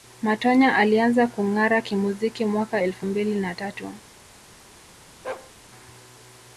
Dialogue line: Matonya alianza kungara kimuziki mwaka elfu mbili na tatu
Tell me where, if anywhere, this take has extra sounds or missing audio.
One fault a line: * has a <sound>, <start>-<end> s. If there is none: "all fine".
* has a bark, 5.2-5.5 s